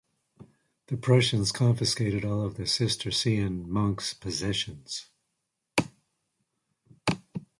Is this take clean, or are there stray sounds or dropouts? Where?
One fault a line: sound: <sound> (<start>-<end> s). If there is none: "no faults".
no faults